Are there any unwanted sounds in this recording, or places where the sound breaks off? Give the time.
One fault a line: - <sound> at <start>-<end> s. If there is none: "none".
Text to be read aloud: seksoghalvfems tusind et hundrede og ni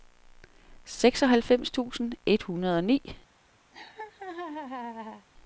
- laugh at 3.7-5.3 s